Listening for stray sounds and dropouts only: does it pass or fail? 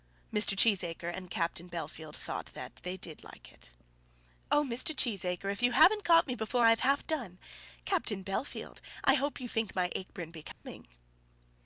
fail